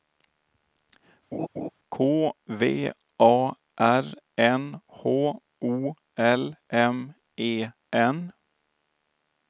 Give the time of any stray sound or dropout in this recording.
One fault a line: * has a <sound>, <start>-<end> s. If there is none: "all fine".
* has a laugh, 1.3-1.7 s